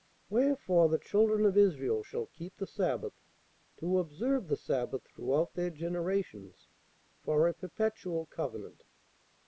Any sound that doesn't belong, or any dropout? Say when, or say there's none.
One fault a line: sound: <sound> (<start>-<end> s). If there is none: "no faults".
no faults